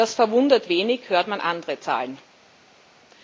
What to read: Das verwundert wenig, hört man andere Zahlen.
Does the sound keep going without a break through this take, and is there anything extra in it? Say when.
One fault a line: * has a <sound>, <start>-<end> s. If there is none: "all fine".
all fine